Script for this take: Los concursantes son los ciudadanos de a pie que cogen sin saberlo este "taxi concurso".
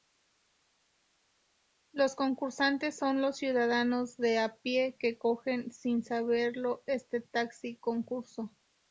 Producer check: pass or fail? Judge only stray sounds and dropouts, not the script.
pass